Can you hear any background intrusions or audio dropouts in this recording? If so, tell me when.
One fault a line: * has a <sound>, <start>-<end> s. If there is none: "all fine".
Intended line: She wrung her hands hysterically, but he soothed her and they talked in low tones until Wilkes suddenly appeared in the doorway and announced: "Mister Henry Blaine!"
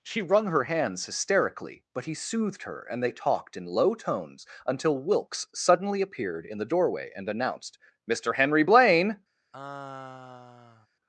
* has a sigh, 9.5-10.9 s